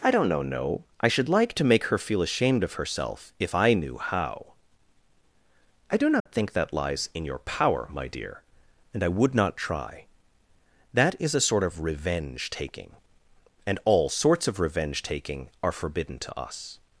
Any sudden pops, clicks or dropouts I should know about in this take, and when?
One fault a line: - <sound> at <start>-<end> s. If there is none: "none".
- dropout at 6.2-6.3 s